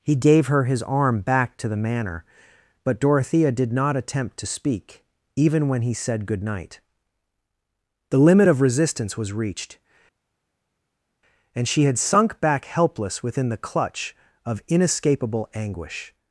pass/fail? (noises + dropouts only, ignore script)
pass